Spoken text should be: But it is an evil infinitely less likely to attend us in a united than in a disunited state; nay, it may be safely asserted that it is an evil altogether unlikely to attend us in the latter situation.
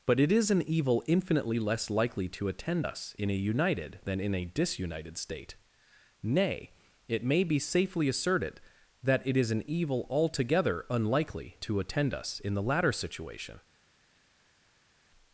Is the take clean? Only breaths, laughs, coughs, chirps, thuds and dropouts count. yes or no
yes